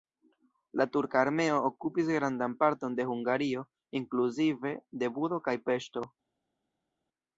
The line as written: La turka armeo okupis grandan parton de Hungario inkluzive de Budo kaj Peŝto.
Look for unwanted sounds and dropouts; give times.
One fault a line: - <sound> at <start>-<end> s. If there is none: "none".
none